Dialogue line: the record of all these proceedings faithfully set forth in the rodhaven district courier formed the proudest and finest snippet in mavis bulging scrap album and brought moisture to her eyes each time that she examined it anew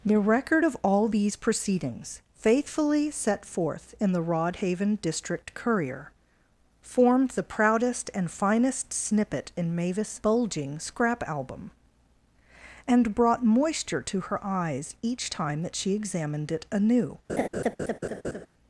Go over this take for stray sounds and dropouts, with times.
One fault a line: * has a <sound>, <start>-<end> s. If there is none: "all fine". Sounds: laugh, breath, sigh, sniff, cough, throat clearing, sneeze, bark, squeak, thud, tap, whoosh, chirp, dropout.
* has a laugh, 17.3-18.5 s